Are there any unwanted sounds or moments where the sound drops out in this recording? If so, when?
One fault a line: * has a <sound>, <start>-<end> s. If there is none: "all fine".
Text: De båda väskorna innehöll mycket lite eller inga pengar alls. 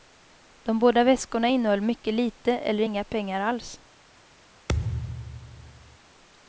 * has a thud, 4.7-6.0 s